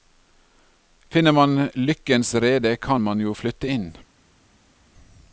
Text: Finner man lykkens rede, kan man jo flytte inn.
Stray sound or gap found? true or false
false